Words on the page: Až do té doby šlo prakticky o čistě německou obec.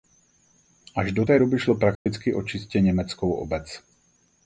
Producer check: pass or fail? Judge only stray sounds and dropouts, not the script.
fail